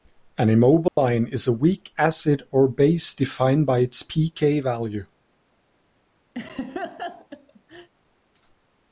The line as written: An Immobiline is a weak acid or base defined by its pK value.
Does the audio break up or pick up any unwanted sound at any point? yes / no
yes